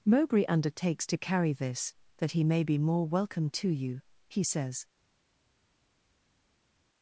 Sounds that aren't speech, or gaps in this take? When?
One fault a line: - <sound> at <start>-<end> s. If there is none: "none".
none